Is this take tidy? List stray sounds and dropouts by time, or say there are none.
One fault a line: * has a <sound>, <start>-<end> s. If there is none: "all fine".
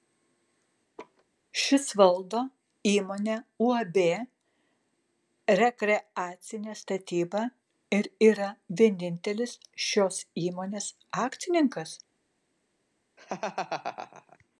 * has a laugh, 1.0-1.2 s
* has a laugh, 13.2-14.4 s